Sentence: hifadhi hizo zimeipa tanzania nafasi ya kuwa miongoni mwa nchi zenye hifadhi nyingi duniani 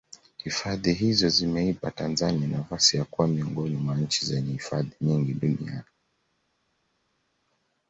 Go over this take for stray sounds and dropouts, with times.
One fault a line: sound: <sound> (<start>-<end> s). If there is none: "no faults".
no faults